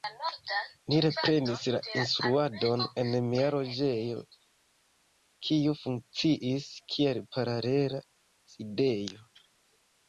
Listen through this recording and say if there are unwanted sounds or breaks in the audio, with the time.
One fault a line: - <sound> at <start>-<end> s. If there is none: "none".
none